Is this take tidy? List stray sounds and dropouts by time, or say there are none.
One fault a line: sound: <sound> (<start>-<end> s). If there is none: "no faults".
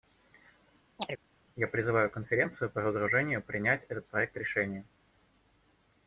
sound: chirp (1.0-1.2 s)